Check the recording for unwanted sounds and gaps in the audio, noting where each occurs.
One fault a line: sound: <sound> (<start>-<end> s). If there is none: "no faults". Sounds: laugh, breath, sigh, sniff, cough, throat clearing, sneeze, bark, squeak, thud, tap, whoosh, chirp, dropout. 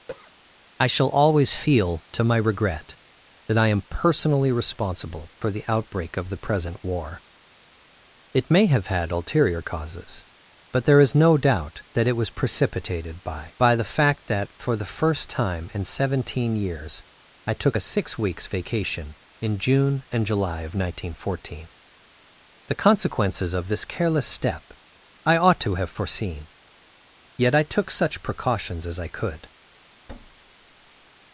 sound: cough (0.1-0.3 s)
sound: thud (30.1-31.1 s)